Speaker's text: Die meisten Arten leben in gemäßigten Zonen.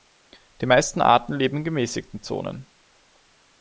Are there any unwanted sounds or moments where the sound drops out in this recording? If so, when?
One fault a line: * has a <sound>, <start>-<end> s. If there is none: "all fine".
all fine